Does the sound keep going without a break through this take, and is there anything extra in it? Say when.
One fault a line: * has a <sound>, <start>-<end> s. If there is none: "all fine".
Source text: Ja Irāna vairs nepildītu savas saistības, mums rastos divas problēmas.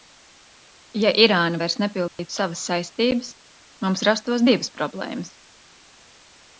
* has a dropout, 2.1-2.2 s